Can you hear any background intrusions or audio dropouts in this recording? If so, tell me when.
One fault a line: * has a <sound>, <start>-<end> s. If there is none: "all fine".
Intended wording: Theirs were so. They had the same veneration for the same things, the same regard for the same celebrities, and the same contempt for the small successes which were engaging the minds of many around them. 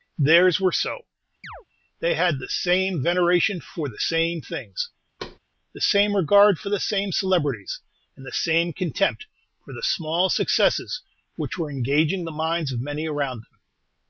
* has a chirp, 1.4-1.6 s
* has a thud, 5.2-5.4 s